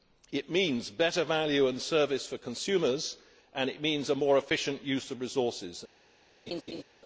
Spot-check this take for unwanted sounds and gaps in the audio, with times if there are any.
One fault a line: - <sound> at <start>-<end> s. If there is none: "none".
- laugh at 6.5-6.8 s